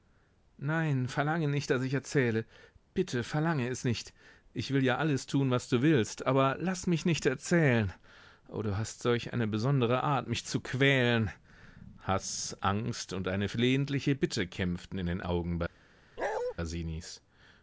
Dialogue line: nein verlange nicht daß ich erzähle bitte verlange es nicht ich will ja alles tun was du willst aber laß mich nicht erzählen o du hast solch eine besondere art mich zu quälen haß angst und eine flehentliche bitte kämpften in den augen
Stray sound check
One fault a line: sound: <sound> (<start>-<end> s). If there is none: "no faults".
sound: bark (16.2-16.5 s)